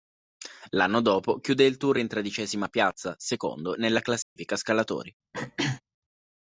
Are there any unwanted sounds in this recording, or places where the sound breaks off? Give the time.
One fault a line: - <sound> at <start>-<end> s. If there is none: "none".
- dropout at 4.2-4.4 s
- throat clearing at 5.3-5.8 s